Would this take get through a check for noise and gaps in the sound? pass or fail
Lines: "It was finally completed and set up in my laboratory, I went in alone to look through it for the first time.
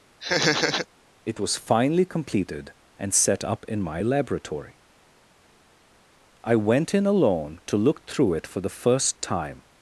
fail